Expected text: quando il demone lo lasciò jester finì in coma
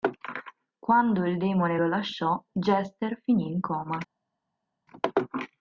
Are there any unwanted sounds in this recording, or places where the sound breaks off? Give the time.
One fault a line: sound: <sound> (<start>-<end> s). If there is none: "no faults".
no faults